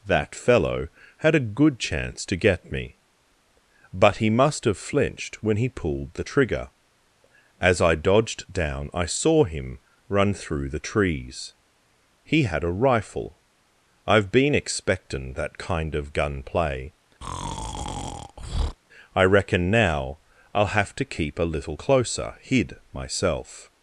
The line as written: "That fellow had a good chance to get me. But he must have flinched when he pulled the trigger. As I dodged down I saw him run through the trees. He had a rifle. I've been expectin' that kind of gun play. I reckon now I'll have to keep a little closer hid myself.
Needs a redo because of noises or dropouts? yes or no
yes